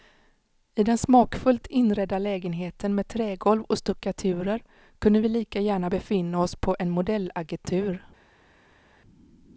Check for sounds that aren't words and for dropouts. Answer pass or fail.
pass